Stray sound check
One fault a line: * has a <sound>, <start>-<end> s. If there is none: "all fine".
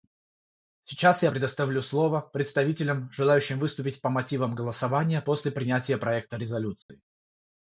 * has a dropout, 6.8-6.9 s